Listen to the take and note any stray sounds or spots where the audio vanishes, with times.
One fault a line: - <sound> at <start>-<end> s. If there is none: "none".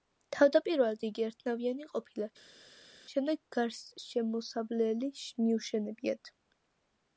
none